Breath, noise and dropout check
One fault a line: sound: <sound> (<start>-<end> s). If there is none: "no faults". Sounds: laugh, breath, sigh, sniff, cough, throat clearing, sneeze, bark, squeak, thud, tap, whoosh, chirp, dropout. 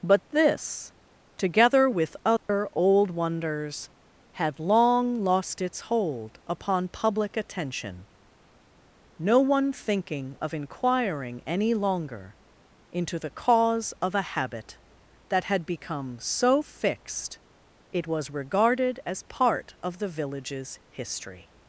sound: dropout (2.4-2.5 s)